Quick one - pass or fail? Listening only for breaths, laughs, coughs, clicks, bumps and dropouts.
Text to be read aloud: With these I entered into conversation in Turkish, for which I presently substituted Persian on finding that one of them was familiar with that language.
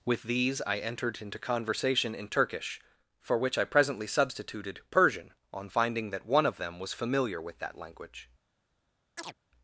fail